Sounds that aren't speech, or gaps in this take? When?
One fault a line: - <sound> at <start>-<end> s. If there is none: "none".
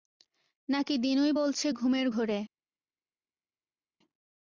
none